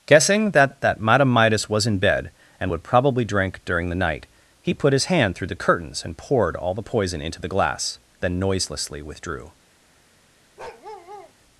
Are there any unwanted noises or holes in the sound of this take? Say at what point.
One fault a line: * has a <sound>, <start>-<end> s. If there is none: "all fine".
* has a bark, 10.6-11.3 s